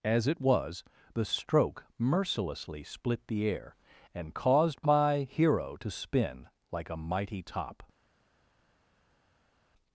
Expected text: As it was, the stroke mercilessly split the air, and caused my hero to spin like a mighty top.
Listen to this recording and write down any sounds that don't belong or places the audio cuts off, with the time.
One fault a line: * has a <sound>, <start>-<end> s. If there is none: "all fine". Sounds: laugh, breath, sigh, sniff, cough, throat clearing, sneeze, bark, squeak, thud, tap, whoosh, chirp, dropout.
all fine